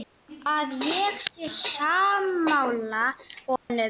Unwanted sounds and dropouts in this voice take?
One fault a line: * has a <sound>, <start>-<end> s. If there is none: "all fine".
* has a dropout, 3.6-3.7 s